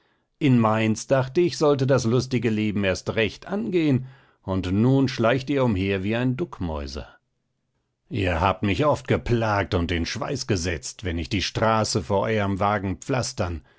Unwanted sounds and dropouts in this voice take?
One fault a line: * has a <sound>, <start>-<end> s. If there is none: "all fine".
all fine